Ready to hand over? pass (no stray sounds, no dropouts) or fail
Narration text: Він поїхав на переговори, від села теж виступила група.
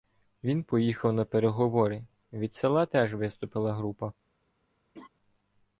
fail